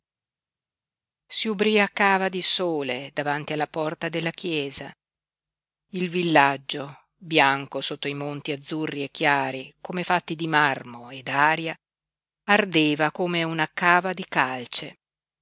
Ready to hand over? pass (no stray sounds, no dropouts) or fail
pass